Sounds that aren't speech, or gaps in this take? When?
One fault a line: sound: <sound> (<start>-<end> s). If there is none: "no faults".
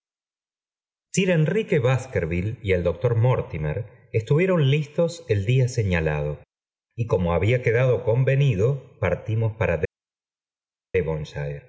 no faults